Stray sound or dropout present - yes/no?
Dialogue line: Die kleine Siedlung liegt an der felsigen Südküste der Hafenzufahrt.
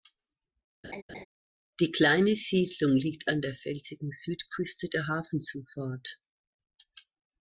yes